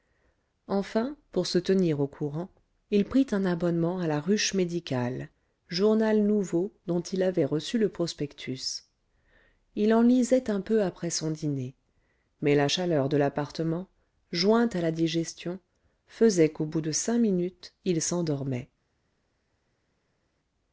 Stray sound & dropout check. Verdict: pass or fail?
pass